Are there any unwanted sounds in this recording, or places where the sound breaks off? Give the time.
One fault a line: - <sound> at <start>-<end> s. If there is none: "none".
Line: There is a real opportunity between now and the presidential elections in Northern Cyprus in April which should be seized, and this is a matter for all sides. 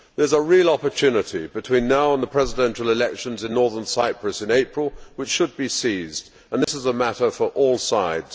- dropout at 6.6-6.7 s